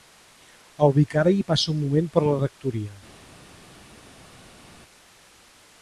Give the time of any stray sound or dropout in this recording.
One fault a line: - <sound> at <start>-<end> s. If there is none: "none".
none